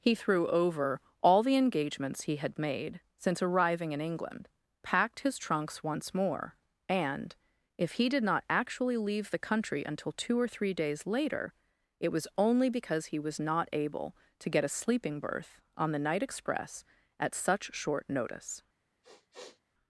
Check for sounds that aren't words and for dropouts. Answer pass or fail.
fail